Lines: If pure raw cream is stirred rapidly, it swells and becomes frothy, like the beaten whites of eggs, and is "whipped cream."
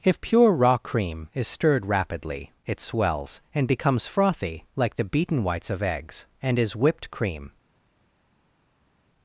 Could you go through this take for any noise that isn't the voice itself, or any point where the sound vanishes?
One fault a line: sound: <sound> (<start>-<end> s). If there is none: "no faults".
no faults